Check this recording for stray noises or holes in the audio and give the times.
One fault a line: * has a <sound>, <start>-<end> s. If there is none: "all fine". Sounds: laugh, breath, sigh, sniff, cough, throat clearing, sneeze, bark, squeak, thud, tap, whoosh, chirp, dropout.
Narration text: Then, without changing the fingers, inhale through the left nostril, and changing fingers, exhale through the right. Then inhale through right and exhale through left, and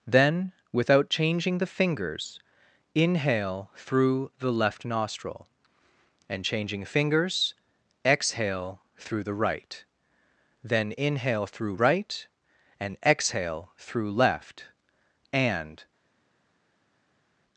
all fine